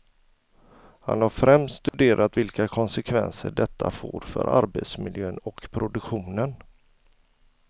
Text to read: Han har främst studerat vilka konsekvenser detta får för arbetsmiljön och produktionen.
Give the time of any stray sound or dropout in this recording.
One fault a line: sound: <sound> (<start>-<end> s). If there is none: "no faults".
sound: dropout (1.9-1.9 s)